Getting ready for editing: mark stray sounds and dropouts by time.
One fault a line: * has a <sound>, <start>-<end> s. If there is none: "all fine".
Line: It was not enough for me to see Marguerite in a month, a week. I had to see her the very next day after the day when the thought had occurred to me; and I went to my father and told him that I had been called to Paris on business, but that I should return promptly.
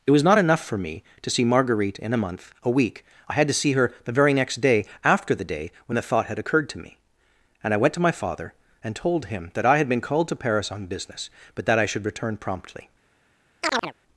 * has a chirp, 13.6-13.9 s